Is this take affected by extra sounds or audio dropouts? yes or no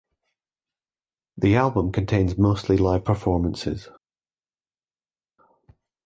no